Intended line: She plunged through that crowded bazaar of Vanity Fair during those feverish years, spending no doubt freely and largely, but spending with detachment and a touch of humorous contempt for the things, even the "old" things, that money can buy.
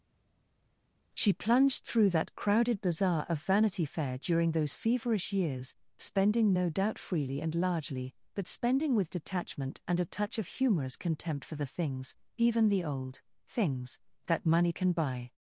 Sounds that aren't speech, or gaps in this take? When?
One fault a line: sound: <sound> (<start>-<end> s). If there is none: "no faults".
no faults